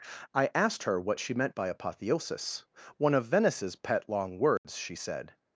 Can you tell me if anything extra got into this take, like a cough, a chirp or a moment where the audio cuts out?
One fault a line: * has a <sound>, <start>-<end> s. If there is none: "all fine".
* has a dropout, 4.6-4.6 s